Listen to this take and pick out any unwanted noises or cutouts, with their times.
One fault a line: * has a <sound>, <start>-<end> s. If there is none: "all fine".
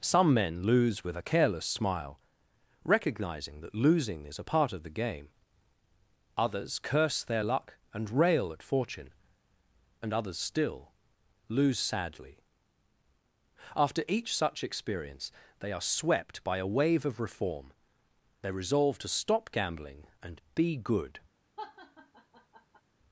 * has a laugh, 21.6-22.8 s